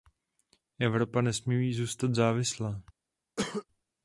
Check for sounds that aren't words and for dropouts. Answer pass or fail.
fail